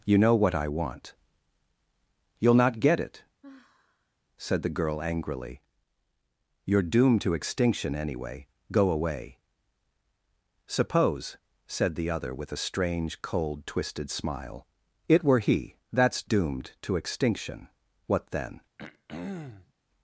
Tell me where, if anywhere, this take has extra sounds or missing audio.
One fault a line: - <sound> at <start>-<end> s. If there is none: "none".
- sigh at 3.4-4.2 s
- throat clearing at 18.8-19.7 s